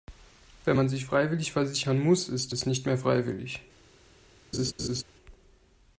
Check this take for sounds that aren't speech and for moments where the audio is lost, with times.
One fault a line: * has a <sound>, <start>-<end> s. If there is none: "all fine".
* has a laugh, 4.5-5.0 s